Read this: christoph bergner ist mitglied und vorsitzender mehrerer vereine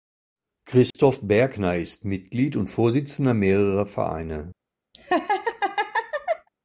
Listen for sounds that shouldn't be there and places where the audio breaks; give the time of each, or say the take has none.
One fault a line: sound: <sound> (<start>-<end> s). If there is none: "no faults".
sound: dropout (0.9-1.0 s)
sound: laugh (4.9-6.5 s)